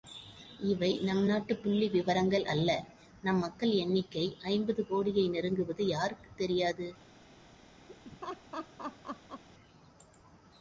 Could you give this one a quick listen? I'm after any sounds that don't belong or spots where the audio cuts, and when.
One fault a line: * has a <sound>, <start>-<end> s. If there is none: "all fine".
* has a laugh, 7.9-9.4 s